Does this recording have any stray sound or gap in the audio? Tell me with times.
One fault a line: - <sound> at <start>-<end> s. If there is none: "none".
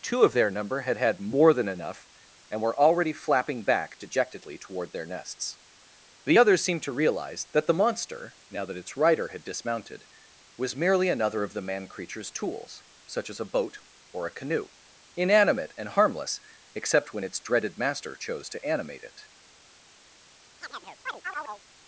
- chirp at 20.6-21.6 s